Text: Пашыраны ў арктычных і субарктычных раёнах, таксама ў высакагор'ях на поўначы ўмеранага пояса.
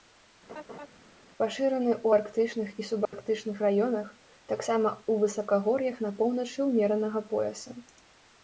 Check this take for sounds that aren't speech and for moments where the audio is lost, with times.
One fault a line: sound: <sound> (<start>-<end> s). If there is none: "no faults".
sound: laugh (0.5-0.9 s)
sound: dropout (3.0-3.1 s)